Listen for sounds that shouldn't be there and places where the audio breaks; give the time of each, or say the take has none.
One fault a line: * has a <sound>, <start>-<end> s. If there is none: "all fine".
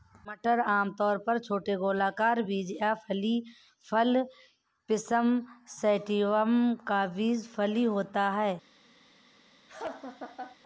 * has a laugh, 9.7-10.6 s